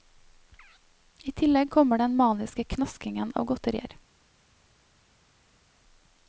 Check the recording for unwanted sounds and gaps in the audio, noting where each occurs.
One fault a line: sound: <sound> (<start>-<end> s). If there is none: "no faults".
no faults